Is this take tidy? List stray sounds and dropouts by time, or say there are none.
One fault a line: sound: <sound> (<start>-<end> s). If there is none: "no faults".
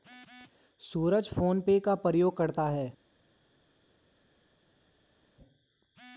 no faults